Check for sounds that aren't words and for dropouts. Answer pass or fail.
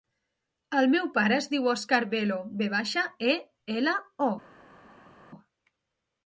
pass